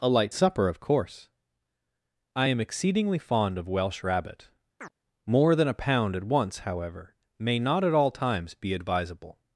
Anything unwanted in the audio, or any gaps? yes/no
yes